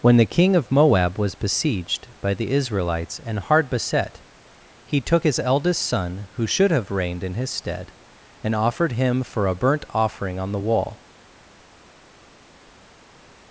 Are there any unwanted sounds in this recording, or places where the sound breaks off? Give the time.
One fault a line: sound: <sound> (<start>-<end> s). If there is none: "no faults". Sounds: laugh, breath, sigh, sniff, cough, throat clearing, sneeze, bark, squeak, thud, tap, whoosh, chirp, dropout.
no faults